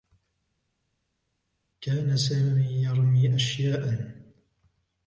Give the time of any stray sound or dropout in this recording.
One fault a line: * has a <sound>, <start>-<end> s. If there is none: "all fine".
all fine